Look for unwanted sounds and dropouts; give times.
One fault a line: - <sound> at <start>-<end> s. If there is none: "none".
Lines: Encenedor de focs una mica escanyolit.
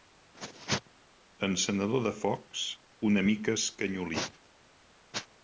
none